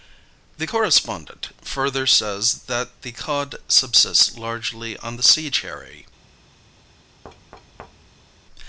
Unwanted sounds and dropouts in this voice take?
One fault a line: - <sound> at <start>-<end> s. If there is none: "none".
- thud at 7.2-8.3 s